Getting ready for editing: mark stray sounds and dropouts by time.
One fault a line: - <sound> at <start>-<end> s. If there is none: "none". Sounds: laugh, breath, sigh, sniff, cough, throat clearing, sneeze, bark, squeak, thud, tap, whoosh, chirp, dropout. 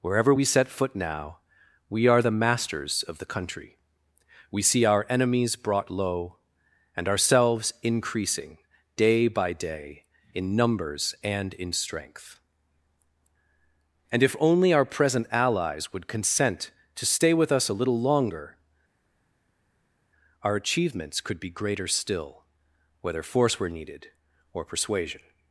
none